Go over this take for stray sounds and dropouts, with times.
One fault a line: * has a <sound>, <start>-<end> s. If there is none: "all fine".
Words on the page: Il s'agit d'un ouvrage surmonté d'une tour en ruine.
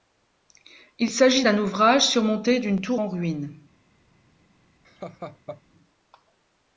* has a laugh, 4.8-5.6 s